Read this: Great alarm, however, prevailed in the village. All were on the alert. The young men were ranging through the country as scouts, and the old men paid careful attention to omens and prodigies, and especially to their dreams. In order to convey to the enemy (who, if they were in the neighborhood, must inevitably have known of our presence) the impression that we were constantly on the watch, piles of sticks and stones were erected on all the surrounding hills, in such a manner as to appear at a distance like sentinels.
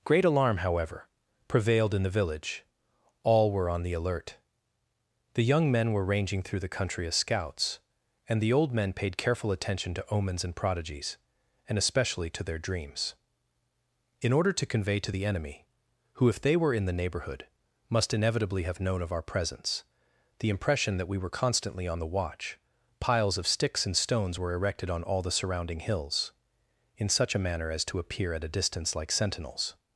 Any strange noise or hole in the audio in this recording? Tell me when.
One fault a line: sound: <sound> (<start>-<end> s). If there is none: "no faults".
no faults